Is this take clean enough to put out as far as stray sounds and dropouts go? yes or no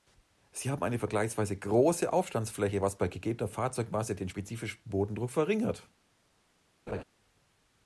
no